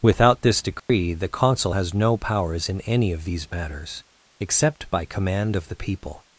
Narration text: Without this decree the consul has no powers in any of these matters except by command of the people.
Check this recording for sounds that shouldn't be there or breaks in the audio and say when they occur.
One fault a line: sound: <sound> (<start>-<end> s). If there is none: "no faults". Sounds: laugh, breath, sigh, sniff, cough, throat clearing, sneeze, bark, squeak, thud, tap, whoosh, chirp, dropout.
sound: dropout (0.8-0.9 s)